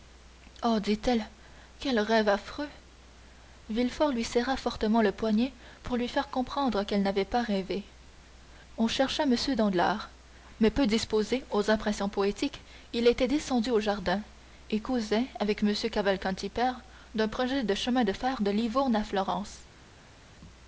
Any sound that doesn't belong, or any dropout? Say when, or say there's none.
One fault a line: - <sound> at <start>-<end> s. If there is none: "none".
none